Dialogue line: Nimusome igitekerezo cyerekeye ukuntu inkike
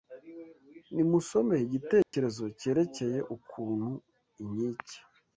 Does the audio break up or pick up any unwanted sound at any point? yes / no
yes